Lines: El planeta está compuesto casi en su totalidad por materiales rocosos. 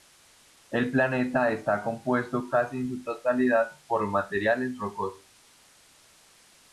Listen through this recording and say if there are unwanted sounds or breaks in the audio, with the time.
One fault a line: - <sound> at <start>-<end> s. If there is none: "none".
none